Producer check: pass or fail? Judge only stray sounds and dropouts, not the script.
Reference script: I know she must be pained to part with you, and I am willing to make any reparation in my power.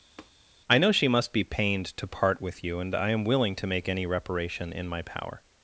fail